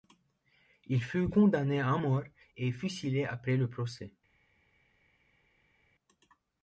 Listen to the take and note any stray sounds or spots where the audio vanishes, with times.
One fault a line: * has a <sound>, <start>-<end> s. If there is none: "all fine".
all fine